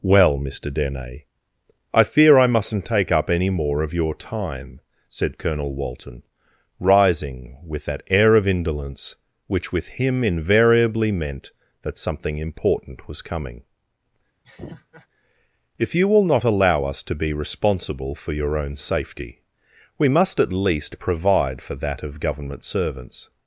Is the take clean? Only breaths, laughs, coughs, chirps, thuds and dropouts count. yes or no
no